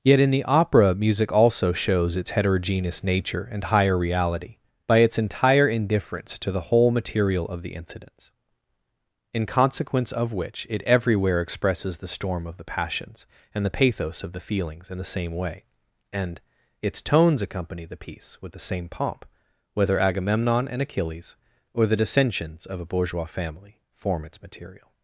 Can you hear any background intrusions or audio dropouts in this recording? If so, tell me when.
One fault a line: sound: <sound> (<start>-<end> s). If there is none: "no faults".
no faults